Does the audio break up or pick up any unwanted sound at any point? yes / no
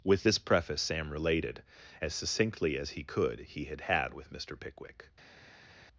no